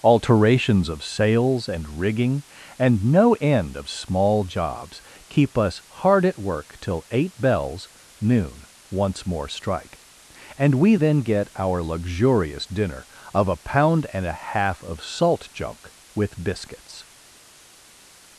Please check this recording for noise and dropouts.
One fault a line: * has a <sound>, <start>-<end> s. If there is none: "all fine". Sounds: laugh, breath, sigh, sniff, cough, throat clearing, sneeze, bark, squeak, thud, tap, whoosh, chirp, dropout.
all fine